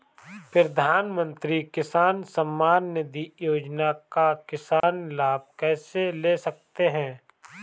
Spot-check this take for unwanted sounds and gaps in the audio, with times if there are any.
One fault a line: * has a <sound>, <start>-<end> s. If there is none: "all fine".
* has a dropout, 4.8-4.8 s